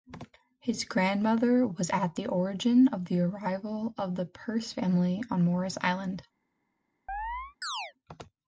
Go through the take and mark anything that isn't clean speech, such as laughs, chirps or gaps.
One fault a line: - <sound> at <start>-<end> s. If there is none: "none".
- chirp at 7.1-7.9 s